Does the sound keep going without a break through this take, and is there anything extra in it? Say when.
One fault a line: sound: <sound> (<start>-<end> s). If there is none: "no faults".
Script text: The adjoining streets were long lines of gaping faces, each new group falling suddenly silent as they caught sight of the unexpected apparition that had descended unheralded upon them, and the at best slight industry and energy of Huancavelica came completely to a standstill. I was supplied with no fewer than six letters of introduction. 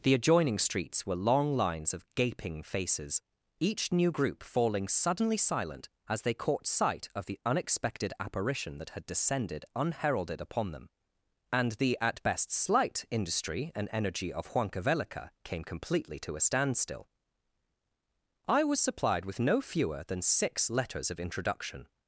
no faults